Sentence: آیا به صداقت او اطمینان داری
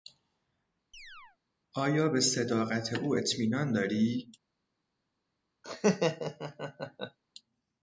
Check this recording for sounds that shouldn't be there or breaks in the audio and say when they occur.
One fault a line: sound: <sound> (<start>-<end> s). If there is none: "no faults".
sound: chirp (0.9-1.4 s)
sound: laugh (5.6-7.2 s)